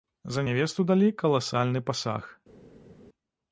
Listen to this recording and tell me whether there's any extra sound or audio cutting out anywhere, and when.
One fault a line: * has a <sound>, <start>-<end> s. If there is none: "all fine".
all fine